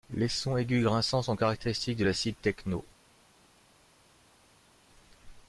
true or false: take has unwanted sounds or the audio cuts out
false